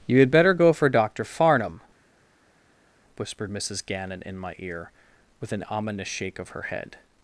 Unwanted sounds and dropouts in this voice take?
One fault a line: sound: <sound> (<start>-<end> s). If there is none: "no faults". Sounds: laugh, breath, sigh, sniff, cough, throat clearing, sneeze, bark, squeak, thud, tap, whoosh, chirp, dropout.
no faults